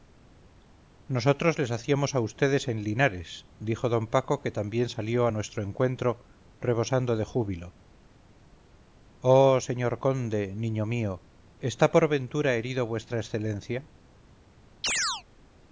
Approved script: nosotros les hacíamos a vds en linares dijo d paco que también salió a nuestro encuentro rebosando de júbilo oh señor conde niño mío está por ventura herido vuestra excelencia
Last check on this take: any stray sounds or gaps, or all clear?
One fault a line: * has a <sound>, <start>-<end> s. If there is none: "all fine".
* has a chirp, 14.8-15.2 s